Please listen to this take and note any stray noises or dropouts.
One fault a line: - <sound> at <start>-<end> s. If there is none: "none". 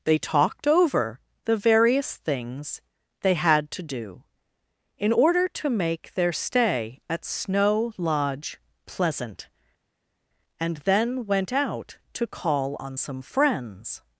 none